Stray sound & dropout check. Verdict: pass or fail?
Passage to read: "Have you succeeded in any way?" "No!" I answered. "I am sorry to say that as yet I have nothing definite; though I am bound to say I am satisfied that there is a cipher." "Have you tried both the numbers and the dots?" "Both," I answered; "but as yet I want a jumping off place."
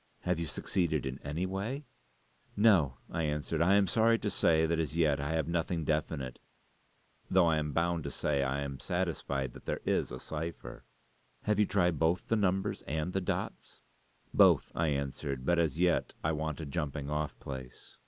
pass